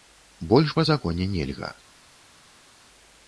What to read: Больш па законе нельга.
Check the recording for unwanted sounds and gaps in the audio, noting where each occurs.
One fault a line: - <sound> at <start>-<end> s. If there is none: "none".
none